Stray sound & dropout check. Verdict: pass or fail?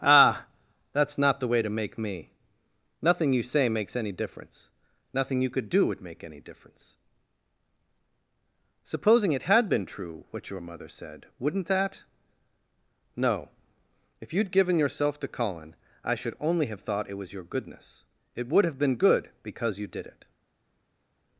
pass